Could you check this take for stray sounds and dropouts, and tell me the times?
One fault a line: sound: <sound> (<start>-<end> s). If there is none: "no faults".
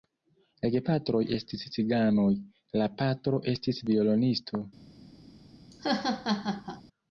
sound: laugh (5.7-6.8 s)